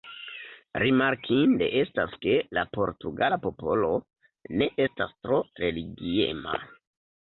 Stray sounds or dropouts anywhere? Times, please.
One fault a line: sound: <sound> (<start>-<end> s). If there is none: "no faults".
no faults